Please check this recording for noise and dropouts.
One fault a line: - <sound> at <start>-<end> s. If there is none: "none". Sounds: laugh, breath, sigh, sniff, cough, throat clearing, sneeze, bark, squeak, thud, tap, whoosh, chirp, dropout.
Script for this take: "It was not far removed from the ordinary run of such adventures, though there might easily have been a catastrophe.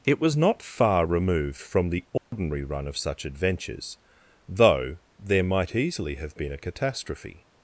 - dropout at 2.2-2.3 s